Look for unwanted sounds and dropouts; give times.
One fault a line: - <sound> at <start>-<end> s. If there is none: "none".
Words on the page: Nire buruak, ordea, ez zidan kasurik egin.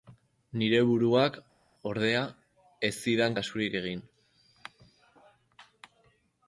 none